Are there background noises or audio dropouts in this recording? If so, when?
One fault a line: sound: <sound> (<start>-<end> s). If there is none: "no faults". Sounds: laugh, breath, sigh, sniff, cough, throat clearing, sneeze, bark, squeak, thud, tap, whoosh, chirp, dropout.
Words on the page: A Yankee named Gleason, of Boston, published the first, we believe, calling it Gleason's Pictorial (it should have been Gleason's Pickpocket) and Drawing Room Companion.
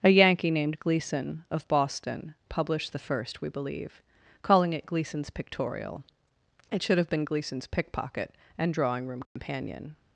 sound: dropout (9.3-9.4 s)